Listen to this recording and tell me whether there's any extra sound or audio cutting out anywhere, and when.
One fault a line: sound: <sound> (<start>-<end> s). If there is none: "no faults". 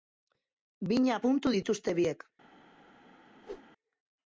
sound: whoosh (3.4-3.7 s)